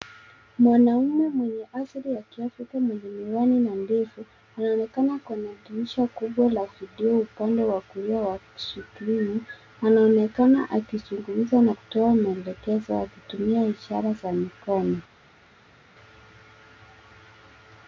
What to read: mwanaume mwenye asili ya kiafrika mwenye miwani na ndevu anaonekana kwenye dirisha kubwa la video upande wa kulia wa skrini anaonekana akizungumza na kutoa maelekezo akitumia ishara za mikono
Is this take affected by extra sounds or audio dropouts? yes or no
no